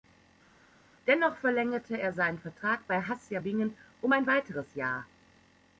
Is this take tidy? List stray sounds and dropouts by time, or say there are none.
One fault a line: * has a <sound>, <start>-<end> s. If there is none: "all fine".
all fine